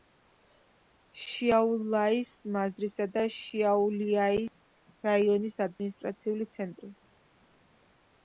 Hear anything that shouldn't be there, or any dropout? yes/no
no